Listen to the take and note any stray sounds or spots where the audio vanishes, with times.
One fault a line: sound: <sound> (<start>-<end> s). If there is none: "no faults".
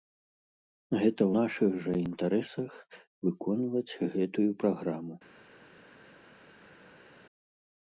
no faults